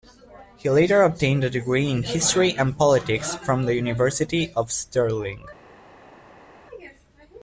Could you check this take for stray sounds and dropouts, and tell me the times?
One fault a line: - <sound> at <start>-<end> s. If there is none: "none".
none